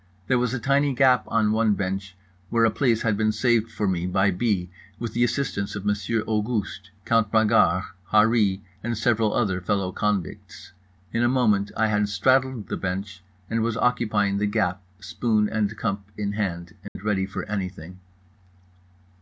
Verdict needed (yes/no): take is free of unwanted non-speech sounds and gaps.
no